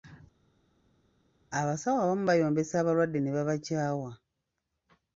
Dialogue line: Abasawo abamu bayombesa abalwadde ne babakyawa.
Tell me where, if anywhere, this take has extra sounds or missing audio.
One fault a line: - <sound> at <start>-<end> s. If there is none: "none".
none